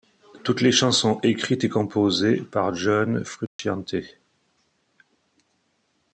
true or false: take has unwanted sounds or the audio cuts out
true